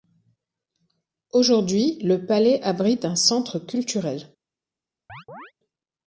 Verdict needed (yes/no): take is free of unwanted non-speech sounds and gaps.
no